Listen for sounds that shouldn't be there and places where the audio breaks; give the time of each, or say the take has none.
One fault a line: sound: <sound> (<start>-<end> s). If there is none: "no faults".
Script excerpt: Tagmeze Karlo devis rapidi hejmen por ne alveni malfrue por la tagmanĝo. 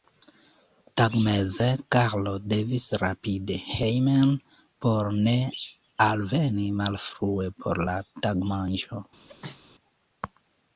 sound: sneeze (9.3-9.6 s)